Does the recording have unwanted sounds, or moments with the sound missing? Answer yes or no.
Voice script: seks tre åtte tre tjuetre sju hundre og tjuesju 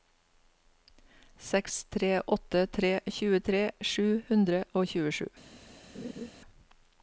yes